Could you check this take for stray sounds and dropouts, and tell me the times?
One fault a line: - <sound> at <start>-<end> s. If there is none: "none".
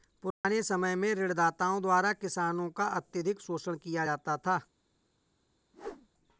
- dropout at 0.3-0.4 s
- whoosh at 5.7-6.1 s